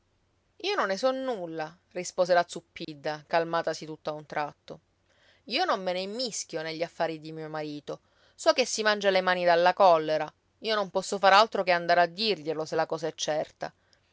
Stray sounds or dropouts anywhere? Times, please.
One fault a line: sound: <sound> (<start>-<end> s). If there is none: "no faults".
sound: dropout (2.8-2.9 s)